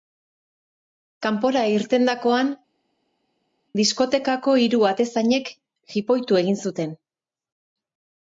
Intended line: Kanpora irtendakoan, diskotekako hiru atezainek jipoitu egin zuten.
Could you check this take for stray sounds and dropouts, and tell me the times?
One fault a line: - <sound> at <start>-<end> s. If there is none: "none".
none